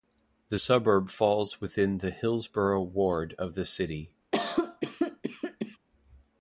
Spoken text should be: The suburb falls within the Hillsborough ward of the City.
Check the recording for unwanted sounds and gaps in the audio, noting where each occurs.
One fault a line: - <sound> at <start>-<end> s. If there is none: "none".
- cough at 4.3-5.8 s